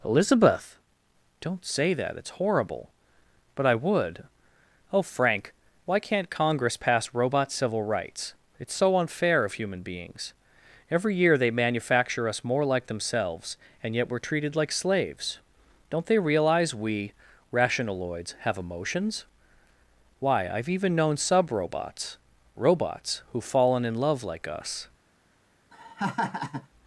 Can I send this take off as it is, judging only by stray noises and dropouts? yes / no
no